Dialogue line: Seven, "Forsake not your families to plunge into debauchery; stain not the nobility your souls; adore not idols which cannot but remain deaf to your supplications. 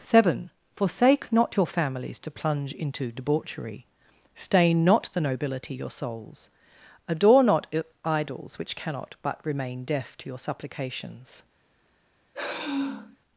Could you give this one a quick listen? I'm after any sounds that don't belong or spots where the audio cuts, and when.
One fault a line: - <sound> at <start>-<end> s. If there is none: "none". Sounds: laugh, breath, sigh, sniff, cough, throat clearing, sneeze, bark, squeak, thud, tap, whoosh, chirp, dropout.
- sigh at 12.3-13.2 s